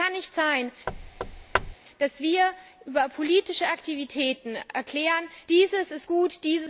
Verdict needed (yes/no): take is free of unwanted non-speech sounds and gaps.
no